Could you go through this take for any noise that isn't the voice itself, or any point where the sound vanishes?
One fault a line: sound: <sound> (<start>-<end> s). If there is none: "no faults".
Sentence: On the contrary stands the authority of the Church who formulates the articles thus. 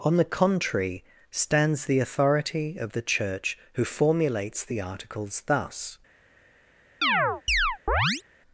sound: chirp (7.0-8.2 s)